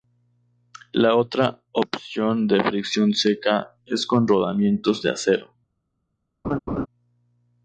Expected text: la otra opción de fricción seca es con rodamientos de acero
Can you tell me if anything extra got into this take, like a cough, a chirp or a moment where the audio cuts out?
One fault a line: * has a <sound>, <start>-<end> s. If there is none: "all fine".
* has a laugh, 6.4-6.9 s